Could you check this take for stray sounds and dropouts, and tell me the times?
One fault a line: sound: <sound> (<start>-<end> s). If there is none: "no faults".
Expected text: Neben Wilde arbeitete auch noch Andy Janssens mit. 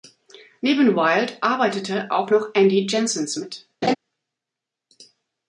sound: laugh (3.8-3.9 s)